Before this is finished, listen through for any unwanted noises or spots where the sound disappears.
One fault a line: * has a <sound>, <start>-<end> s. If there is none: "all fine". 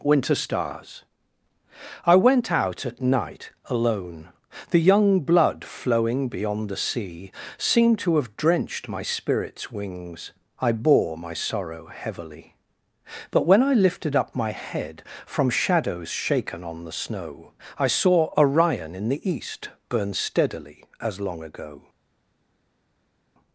all fine